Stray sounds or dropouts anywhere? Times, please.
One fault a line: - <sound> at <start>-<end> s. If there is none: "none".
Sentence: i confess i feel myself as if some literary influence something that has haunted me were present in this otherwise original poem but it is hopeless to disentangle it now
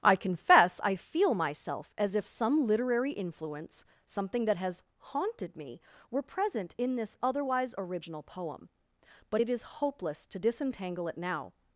none